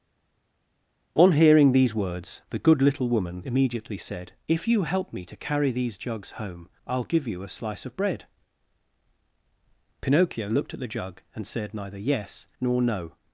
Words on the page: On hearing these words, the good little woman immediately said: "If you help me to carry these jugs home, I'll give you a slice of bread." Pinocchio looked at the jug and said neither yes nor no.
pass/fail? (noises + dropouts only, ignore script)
pass